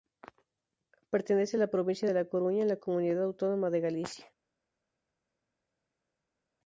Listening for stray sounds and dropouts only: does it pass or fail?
pass